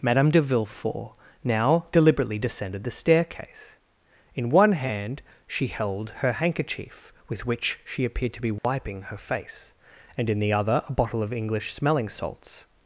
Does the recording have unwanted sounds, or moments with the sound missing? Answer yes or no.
yes